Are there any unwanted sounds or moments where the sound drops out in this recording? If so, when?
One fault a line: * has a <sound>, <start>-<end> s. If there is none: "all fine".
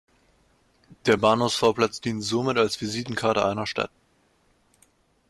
all fine